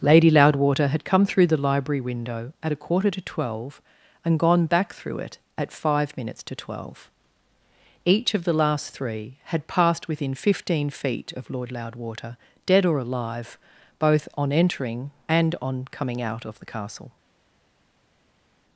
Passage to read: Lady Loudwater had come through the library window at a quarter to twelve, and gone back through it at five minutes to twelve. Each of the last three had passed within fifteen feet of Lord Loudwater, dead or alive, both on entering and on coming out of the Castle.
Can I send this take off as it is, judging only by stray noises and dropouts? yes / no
yes